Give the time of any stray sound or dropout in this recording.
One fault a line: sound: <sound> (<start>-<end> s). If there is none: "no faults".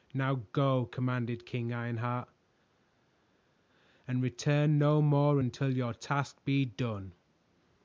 no faults